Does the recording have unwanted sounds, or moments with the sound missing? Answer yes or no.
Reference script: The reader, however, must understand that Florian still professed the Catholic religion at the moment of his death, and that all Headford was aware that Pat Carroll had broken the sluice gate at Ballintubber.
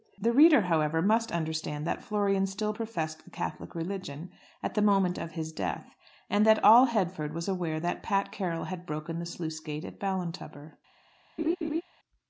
yes